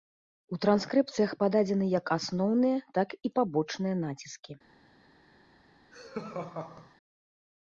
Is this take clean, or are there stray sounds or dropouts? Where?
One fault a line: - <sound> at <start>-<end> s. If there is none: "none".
- laugh at 5.9-6.9 s